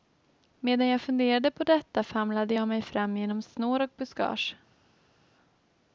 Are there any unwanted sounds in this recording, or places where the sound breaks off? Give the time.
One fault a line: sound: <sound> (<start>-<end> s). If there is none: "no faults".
no faults